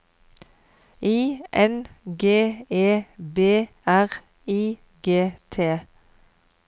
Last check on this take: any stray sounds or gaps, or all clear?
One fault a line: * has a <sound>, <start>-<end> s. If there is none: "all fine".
all fine